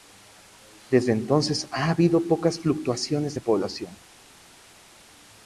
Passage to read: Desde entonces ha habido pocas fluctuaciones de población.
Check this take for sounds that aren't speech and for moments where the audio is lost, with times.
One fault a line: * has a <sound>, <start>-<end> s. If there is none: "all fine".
all fine